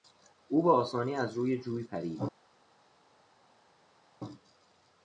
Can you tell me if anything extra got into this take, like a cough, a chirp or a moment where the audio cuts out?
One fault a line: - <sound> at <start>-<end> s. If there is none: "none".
none